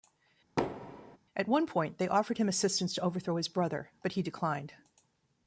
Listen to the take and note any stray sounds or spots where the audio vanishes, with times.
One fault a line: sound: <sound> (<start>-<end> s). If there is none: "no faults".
sound: thud (0.6-1.2 s)